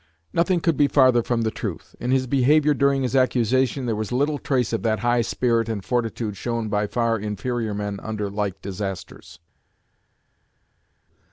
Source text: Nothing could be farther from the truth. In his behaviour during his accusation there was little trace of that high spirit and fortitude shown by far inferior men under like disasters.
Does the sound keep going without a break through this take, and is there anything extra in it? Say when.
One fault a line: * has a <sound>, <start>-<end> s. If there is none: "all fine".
all fine